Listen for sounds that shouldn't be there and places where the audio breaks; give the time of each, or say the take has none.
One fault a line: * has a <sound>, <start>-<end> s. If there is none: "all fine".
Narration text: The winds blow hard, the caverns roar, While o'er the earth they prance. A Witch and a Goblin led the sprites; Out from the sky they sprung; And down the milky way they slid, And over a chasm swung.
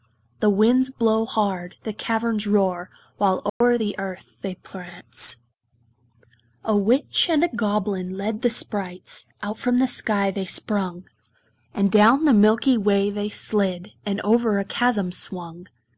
* has a dropout, 3.5-3.6 s